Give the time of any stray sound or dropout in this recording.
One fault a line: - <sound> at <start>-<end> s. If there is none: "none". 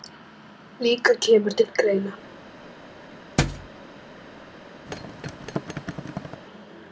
- thud at 3.4-3.7 s
- thud at 4.9-6.4 s